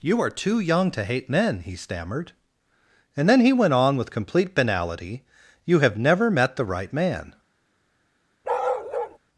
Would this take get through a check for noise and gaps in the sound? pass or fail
fail